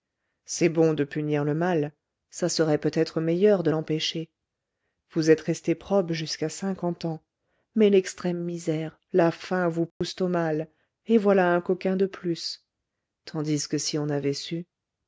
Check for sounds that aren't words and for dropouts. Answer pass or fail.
fail